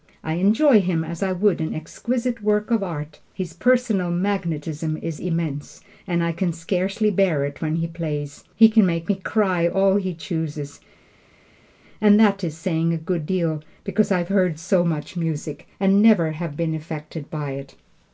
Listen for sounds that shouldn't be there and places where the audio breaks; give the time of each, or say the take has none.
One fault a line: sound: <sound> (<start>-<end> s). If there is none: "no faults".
no faults